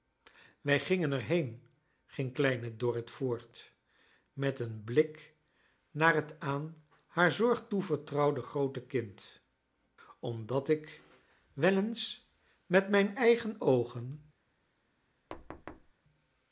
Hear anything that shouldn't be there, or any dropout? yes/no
yes